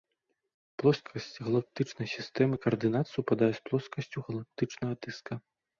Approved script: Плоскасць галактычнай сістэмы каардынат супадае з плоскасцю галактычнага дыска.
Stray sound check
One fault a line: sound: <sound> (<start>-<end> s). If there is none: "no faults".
no faults